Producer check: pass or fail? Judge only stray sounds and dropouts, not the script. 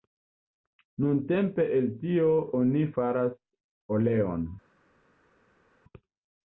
pass